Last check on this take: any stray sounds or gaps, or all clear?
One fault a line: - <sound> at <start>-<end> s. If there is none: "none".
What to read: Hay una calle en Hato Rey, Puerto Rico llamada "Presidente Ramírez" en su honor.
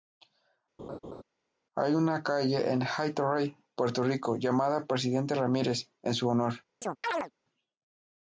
- laugh at 0.8-1.2 s
- chirp at 6.8-7.3 s